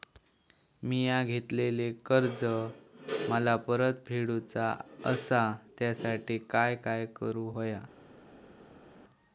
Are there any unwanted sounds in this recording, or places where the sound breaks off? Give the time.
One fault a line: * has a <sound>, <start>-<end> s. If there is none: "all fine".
all fine